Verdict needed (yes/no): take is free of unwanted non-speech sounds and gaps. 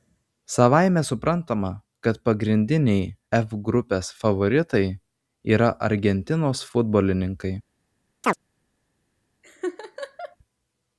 no